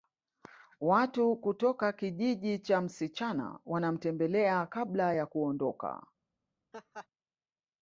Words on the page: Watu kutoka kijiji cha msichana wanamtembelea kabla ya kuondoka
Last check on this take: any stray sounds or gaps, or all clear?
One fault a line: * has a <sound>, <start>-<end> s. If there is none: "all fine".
* has a laugh, 6.7-7.1 s